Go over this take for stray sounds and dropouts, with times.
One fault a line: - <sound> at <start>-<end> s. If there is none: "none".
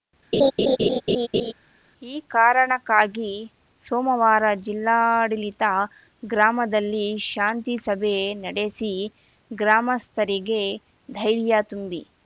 - laugh at 0.3-1.5 s